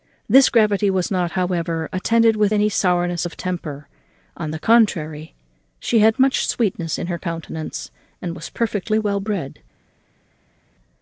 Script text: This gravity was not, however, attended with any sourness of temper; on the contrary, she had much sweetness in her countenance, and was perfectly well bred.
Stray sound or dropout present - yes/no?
no